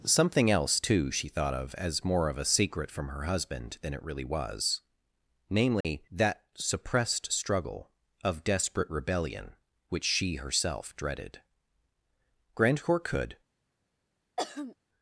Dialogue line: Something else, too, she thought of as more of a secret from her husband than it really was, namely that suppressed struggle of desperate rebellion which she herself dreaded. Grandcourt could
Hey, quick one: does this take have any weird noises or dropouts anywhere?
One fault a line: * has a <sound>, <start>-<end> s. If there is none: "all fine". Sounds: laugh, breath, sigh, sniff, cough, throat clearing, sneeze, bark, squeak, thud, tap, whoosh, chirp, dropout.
* has a dropout, 5.8-5.8 s
* has a throat clearing, 14.4-14.8 s